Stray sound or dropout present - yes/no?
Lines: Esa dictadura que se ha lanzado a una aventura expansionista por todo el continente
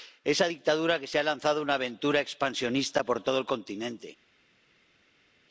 no